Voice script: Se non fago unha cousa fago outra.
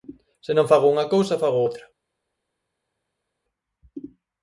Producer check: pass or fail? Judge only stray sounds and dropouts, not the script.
pass